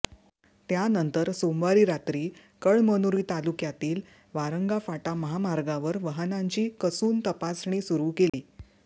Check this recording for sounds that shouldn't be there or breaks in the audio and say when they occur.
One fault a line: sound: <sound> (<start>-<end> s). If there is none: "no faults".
sound: dropout (8.3-8.3 s)